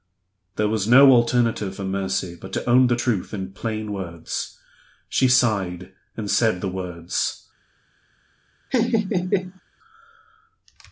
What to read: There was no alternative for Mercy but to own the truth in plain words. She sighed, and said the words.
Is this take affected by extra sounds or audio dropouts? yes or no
yes